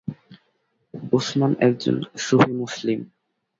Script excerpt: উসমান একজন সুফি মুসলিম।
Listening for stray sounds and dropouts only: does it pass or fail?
pass